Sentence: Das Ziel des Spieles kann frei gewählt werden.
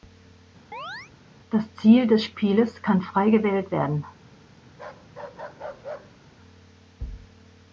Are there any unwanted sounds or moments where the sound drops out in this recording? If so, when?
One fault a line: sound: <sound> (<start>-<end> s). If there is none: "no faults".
sound: chirp (0.7-1.1 s)
sound: bark (4.7-6.2 s)